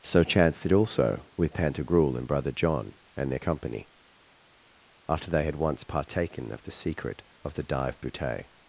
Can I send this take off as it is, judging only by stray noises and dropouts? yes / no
yes